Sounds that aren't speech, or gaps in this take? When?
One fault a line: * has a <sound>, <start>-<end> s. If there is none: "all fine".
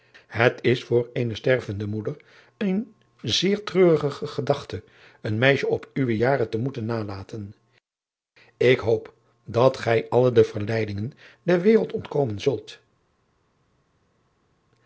all fine